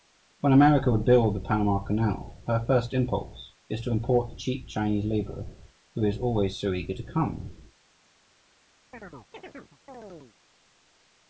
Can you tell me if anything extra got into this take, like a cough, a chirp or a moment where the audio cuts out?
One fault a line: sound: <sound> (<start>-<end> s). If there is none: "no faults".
sound: chirp (8.9-10.4 s)